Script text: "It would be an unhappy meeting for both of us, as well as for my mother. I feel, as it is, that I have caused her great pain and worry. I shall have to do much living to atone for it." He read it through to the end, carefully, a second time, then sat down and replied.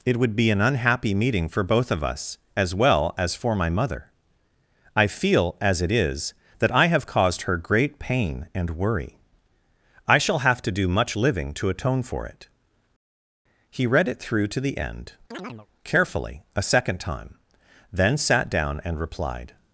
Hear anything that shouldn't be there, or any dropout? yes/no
yes